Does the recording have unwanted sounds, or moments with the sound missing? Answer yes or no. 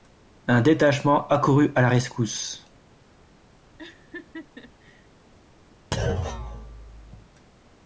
yes